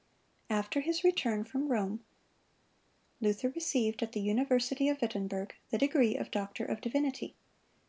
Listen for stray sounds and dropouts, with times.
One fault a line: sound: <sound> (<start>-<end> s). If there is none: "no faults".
no faults